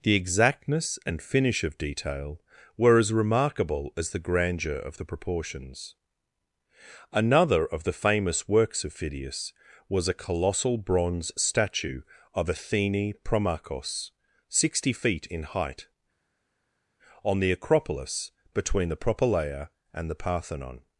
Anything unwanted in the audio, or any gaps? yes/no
no